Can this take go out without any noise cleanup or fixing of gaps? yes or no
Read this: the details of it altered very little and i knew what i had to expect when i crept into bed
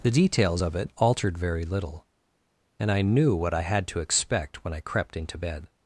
yes